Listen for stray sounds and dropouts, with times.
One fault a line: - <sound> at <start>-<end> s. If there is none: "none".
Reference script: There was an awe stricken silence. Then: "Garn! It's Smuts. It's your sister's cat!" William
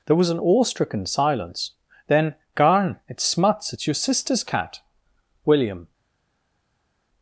none